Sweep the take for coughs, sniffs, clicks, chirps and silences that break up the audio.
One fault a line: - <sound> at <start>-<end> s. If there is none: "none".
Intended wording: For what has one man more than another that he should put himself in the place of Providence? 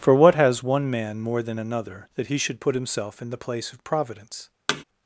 - thud at 4.7-4.8 s